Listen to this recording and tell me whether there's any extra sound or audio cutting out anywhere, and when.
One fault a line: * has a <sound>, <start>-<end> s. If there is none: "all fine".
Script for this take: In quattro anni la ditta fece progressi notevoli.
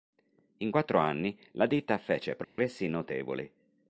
* has a dropout, 2.4-2.6 s